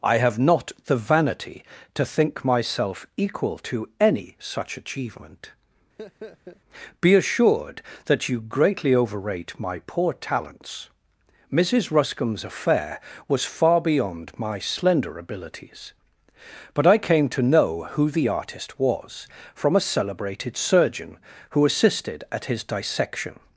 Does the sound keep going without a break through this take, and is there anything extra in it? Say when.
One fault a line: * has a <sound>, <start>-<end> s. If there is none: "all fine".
* has a laugh, 6.0-6.6 s